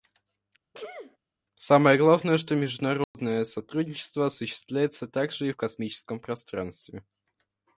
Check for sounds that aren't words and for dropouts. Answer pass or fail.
fail